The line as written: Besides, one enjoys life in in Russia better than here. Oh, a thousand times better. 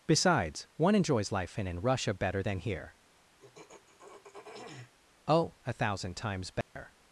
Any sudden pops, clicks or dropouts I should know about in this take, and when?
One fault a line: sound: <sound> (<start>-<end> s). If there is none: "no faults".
sound: throat clearing (3.4-4.9 s)
sound: dropout (6.6-6.8 s)